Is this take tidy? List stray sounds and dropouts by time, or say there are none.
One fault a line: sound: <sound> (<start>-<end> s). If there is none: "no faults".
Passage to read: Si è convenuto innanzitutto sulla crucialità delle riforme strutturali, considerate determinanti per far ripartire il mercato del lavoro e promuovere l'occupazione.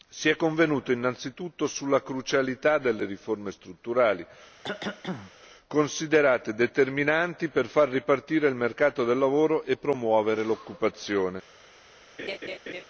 sound: cough (4.6-5.3 s)
sound: laugh (12.2-12.8 s)